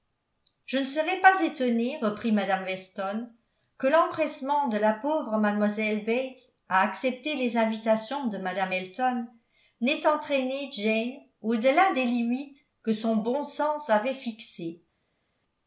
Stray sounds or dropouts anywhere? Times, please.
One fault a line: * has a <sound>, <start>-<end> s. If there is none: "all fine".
all fine